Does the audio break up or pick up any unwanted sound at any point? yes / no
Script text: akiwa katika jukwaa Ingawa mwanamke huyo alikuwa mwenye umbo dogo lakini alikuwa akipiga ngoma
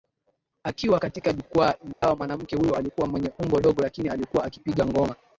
yes